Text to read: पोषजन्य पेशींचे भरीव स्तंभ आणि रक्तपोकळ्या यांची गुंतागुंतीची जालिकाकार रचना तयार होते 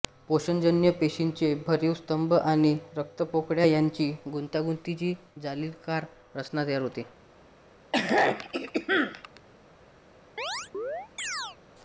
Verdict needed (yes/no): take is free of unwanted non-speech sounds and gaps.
no